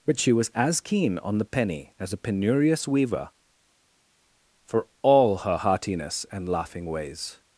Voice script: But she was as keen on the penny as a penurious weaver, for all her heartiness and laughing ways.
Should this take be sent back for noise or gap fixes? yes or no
no